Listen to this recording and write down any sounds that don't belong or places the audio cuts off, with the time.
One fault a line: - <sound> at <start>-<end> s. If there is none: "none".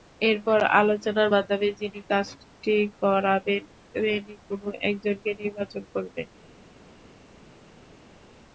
none